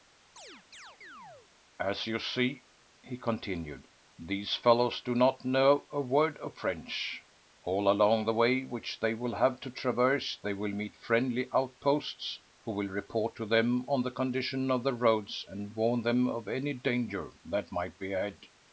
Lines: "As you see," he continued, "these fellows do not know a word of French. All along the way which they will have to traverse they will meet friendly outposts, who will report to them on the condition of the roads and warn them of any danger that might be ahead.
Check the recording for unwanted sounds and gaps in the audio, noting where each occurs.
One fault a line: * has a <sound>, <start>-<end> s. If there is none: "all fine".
* has a chirp, 0.4-1.5 s